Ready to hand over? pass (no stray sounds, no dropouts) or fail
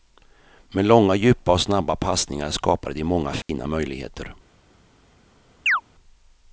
fail